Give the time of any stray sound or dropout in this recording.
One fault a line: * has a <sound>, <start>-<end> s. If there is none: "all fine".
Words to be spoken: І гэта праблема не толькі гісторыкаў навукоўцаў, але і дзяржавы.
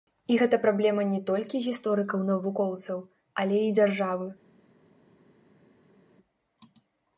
all fine